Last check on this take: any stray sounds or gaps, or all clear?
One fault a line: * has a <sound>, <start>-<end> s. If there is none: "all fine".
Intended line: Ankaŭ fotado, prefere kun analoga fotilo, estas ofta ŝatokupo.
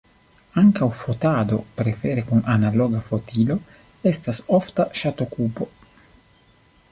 all fine